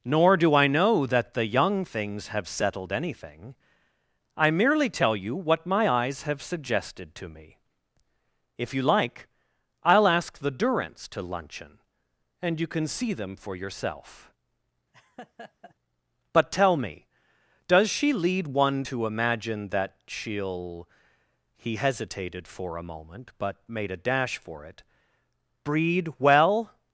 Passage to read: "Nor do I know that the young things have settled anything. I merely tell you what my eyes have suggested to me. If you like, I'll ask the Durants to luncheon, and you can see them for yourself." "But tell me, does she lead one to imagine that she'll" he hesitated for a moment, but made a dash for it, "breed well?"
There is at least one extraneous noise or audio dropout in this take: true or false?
true